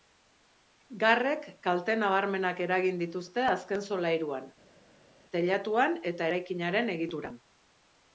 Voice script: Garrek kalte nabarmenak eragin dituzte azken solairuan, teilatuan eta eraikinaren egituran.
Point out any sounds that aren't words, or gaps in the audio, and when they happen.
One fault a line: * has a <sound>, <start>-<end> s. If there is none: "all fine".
all fine